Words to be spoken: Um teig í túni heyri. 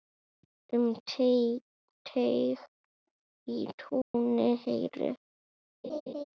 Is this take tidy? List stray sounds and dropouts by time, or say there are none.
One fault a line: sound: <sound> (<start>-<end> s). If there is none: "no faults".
sound: dropout (4.0-4.1 s)
sound: laugh (5.8-6.2 s)